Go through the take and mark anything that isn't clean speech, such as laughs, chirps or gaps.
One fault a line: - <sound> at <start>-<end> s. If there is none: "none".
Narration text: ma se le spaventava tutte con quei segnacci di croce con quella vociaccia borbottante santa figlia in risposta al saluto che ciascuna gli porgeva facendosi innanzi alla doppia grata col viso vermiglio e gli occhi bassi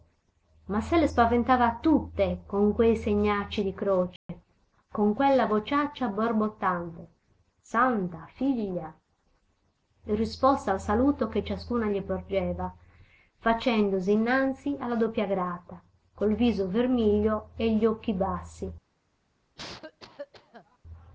- dropout at 4.2-4.3 s
- cough at 19.6-20.8 s